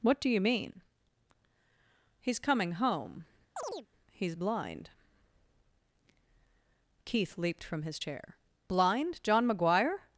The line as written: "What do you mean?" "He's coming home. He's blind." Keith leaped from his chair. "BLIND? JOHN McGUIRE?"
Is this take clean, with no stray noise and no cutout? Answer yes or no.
no